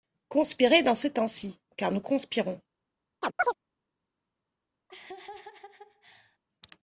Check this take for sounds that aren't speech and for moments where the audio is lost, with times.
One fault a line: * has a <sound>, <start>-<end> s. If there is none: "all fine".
* has a chirp, 3.2-3.5 s
* has a laugh, 4.9-6.4 s